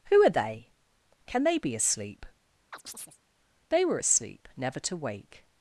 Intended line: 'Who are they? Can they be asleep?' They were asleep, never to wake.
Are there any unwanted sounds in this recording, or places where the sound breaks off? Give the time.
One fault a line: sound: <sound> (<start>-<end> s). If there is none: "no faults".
sound: chirp (2.7-3.2 s)